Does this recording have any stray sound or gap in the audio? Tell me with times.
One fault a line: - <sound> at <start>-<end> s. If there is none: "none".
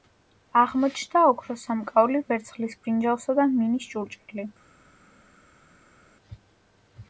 none